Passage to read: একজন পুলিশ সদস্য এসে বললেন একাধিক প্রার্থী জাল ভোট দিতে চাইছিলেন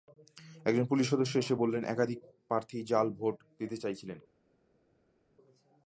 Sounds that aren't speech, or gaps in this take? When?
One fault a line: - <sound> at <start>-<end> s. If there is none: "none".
none